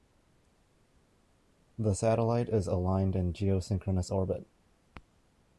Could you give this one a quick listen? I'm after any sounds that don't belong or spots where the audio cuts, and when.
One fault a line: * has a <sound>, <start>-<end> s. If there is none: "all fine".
all fine